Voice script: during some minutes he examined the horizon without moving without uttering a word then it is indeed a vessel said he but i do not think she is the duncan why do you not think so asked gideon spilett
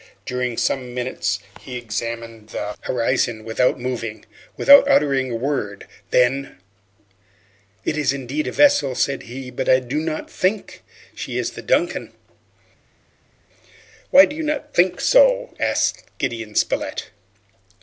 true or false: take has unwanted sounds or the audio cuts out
false